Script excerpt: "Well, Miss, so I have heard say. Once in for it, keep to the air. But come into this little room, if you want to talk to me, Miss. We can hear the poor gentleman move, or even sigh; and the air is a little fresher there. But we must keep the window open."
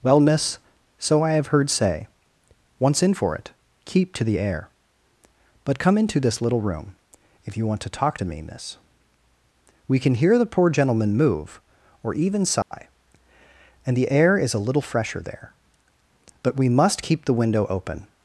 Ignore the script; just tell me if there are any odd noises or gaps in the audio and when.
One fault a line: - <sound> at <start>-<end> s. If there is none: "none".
- dropout at 12.6-12.7 s